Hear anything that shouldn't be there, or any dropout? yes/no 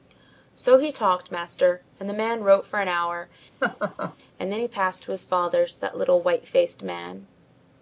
yes